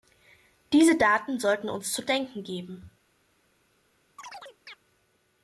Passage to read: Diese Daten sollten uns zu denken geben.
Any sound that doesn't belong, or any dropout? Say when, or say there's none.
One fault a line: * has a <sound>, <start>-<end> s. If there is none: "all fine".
* has a chirp, 4.2-4.8 s